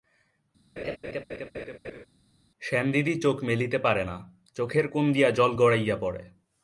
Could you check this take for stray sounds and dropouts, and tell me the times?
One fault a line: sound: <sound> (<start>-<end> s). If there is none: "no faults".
sound: laugh (0.8-2.1 s)